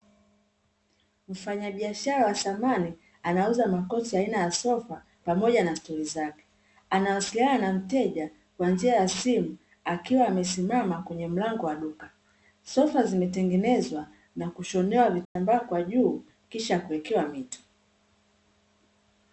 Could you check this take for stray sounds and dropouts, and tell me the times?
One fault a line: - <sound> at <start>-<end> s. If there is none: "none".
- dropout at 15.2-15.4 s